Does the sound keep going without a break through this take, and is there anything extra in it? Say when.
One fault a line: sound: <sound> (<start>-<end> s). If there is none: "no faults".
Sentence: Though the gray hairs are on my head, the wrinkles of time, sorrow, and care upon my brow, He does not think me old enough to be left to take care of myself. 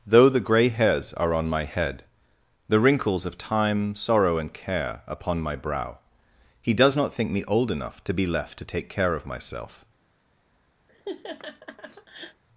sound: laugh (10.9-12.4 s)